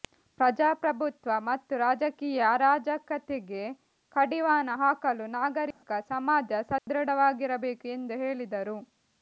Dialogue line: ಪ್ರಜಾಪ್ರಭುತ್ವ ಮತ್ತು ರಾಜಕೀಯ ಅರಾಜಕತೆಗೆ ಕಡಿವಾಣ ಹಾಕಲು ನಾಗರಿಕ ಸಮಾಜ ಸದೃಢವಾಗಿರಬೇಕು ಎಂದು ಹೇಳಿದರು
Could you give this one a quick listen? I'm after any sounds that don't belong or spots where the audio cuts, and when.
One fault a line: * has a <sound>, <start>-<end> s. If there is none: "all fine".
* has a dropout, 5.7-5.8 s
* has a dropout, 6.8-6.9 s